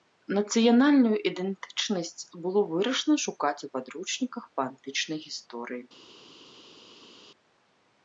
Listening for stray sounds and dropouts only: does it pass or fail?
pass